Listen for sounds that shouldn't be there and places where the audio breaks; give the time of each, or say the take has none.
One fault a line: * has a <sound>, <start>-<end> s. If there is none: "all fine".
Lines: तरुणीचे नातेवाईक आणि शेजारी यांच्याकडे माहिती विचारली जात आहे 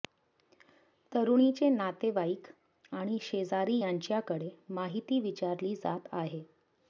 all fine